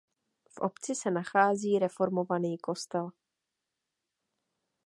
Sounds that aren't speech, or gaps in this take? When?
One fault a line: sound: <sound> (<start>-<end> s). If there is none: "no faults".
no faults